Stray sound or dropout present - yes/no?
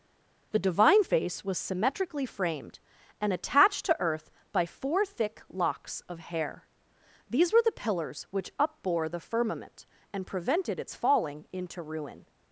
no